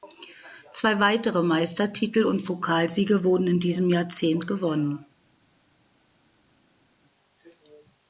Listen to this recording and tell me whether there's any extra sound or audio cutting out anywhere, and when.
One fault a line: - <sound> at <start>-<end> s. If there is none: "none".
none